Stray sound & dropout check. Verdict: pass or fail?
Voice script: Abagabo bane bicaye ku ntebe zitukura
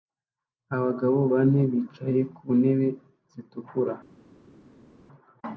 pass